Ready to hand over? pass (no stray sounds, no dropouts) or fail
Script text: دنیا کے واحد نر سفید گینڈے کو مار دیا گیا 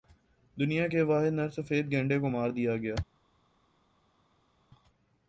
pass